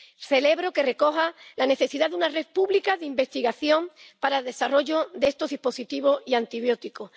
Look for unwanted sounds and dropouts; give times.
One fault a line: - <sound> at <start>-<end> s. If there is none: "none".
none